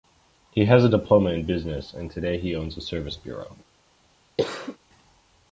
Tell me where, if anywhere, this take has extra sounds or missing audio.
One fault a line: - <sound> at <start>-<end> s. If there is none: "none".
- cough at 4.4-4.8 s